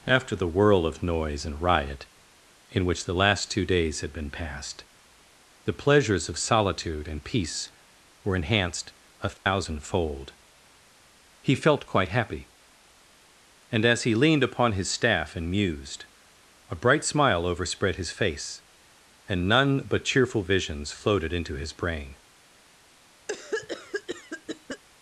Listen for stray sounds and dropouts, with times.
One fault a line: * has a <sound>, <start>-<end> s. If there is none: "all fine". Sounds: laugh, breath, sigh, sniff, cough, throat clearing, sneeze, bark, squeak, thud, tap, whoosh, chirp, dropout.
* has a dropout, 9.4-9.5 s
* has a cough, 23.3-24.8 s